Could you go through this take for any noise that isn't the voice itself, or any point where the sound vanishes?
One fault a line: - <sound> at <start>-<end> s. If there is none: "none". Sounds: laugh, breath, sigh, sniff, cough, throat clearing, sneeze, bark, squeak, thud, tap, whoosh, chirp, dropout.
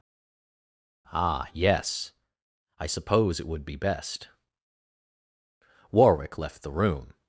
none